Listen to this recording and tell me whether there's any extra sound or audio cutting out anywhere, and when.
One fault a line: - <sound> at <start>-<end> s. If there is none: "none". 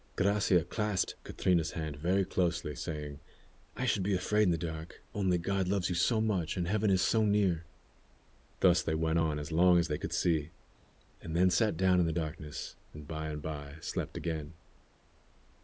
none